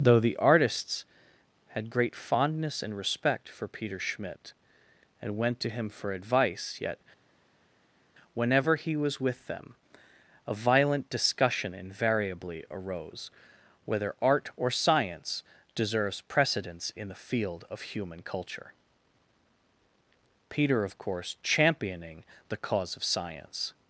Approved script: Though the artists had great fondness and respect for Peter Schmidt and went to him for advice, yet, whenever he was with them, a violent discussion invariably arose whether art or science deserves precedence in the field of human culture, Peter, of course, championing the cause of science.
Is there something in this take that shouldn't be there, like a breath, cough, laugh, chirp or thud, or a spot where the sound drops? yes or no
no